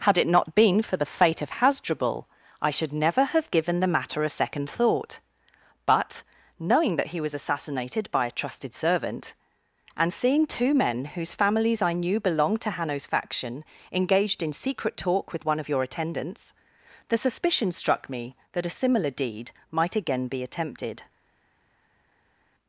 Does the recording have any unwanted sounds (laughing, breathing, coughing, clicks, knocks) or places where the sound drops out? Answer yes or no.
no